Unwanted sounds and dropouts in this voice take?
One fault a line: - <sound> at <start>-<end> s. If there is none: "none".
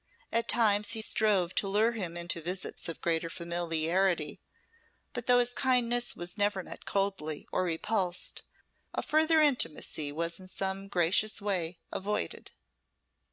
none